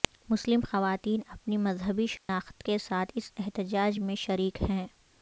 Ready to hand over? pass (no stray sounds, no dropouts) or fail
fail